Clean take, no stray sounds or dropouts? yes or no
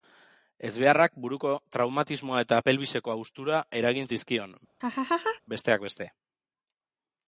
no